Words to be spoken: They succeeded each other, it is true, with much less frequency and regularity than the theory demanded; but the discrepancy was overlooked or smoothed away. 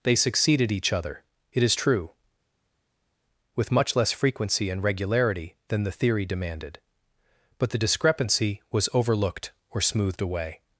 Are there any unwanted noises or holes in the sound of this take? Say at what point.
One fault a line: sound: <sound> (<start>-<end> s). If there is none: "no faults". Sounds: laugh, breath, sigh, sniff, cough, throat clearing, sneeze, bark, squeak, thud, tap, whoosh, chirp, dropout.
no faults